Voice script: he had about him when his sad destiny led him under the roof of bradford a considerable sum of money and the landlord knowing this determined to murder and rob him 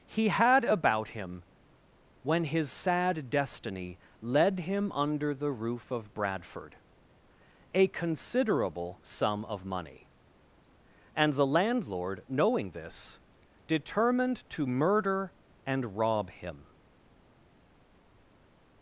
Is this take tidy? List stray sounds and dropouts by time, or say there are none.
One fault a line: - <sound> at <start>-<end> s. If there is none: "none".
none